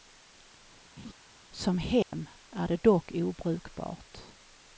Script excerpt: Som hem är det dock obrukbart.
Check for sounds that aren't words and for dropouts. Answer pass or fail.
fail